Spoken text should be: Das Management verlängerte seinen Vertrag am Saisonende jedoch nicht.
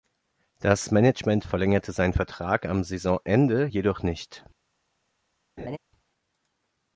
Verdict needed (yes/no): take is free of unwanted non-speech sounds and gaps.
no